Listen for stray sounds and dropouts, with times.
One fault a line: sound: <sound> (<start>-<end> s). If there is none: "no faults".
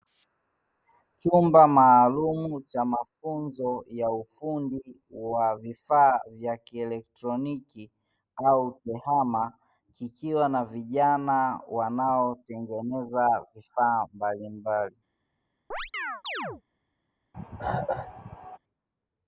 sound: chirp (15.7-16.6 s)
sound: cough (17.3-18.6 s)